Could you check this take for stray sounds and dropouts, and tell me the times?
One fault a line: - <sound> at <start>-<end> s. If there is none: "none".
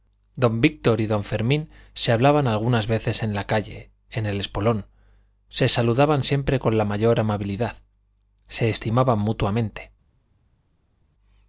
none